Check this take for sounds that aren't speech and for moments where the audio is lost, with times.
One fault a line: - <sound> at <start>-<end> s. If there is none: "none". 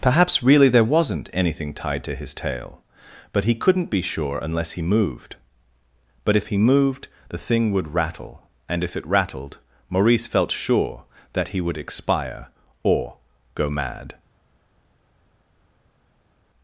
none